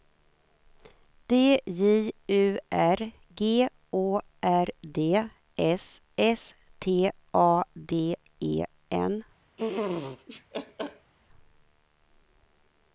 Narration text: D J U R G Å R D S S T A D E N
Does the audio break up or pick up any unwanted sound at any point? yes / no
yes